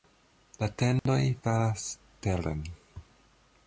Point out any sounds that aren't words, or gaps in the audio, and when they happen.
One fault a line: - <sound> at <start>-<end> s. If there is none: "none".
- dropout at 1.0-1.1 s